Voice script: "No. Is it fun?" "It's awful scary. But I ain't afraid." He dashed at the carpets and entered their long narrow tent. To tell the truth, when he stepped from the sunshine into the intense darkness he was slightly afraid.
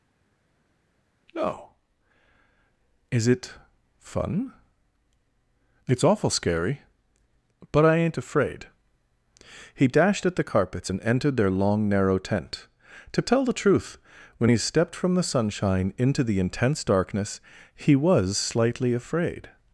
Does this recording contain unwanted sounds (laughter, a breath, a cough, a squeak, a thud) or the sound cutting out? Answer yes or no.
no